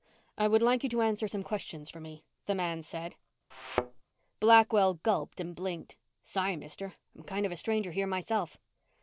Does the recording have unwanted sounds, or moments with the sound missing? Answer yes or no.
yes